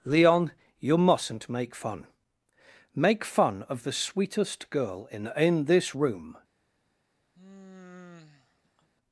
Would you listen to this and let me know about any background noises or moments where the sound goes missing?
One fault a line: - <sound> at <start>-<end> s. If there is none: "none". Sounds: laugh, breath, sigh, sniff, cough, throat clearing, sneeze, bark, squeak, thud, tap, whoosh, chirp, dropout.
- sigh at 7.3-8.9 s